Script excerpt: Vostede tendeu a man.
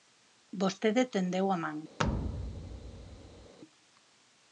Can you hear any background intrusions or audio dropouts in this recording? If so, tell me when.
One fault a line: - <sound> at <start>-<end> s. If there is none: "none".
- thud at 2.0-3.5 s